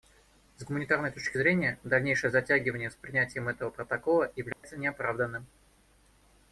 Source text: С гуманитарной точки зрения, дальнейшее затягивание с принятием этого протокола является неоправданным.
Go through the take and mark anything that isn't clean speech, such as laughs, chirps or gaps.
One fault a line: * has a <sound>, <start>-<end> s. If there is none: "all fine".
* has a dropout, 4.5-4.6 s